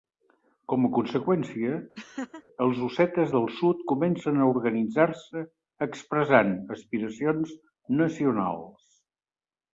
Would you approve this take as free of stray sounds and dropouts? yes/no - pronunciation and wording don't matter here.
no